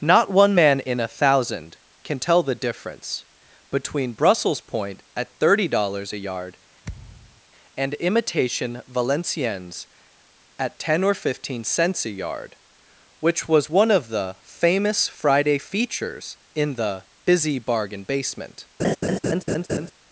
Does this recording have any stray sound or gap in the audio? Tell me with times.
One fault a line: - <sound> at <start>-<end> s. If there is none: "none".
- thud at 6.8-7.4 s
- laugh at 18.8-19.9 s